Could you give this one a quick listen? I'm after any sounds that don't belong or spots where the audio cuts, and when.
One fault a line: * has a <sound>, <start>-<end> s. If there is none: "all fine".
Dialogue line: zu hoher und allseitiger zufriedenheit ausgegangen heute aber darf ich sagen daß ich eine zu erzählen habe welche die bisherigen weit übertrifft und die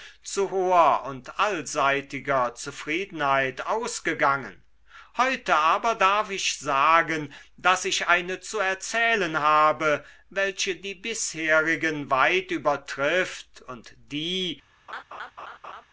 * has a laugh, 14.9-15.9 s